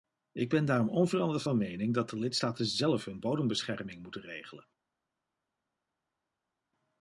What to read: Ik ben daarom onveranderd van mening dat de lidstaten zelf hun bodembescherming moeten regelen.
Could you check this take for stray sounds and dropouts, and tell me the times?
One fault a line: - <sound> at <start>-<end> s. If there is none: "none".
none